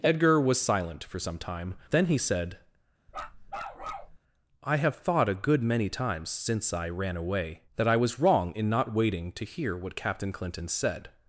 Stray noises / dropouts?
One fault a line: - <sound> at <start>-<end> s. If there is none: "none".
- bark at 3.1-4.2 s